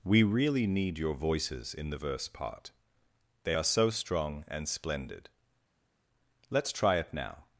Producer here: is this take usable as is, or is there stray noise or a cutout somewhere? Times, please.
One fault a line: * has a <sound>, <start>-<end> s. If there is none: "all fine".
all fine